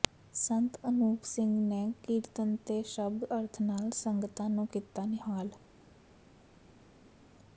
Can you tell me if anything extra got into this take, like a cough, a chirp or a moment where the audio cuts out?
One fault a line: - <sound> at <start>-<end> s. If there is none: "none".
none